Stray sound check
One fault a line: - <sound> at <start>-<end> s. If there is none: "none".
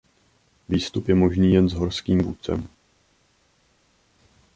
none